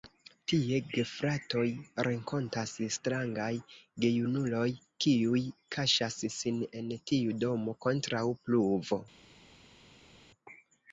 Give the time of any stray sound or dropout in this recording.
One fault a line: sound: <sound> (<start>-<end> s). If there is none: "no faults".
no faults